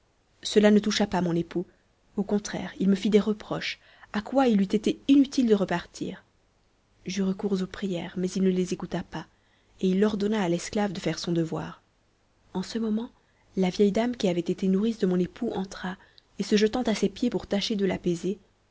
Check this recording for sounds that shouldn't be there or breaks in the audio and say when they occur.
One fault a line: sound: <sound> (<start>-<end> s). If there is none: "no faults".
no faults